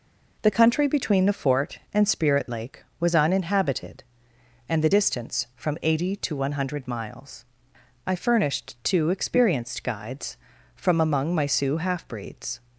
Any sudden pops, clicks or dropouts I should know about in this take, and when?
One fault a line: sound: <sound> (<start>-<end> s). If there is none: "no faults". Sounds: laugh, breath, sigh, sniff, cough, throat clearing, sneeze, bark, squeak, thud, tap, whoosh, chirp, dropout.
no faults